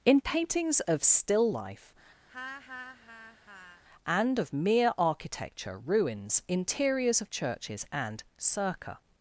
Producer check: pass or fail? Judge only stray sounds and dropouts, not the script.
fail